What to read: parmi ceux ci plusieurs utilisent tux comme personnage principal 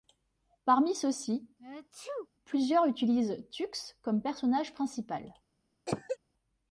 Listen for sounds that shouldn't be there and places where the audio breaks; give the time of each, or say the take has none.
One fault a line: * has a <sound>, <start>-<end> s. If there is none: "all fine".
* has a sneeze, 1.6-2.3 s
* has a cough, 5.9-6.2 s